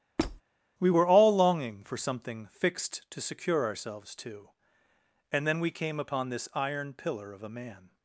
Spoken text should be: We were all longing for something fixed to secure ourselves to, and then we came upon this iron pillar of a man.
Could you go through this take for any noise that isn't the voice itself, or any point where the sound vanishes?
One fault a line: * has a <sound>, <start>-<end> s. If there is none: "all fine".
* has a squeak, 0.2-0.4 s